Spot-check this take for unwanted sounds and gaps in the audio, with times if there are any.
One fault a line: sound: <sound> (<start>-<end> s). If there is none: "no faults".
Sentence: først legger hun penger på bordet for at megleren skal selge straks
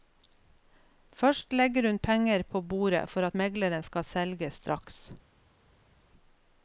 no faults